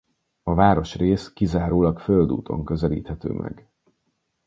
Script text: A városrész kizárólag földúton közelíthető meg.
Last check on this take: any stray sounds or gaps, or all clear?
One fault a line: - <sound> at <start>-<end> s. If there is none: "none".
none